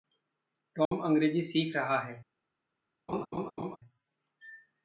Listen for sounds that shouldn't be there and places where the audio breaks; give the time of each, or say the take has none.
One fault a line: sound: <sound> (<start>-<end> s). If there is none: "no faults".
sound: dropout (0.8-0.9 s)
sound: laugh (3.1-3.8 s)